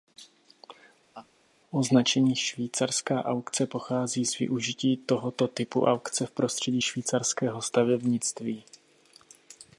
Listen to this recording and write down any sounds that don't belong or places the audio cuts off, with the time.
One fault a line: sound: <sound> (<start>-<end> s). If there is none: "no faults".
sound: laugh (1.1-1.3 s)